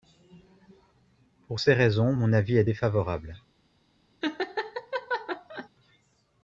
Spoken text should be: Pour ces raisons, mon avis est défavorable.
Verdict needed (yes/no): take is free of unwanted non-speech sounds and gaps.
no